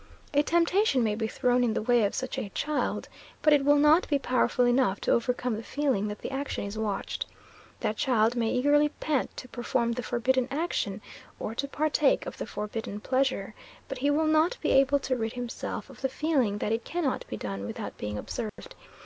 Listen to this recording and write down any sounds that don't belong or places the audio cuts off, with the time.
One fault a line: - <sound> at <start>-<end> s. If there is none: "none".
- dropout at 18.5-18.6 s